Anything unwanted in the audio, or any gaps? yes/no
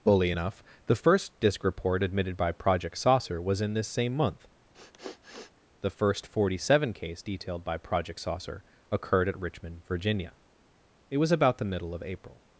yes